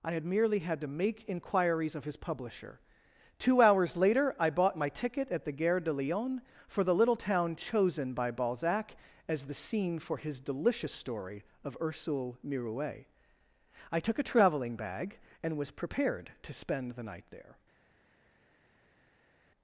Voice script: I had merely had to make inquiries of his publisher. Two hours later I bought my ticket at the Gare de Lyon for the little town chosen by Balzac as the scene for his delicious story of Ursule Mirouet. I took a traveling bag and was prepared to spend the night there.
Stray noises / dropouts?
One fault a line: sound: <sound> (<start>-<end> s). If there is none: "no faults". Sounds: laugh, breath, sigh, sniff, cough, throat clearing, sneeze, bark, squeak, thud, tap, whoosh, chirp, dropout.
no faults